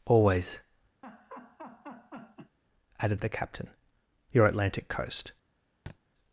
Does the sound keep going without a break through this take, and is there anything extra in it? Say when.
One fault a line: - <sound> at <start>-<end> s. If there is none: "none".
- laugh at 1.0-2.6 s
- thud at 5.9-6.0 s